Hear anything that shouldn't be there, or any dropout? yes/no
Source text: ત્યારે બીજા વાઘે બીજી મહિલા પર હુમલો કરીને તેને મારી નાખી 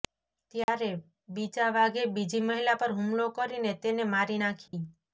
yes